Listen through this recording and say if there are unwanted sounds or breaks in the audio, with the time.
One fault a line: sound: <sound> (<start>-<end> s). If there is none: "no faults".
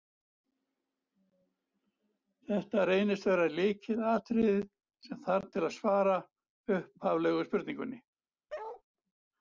sound: bark (8.5-8.8 s)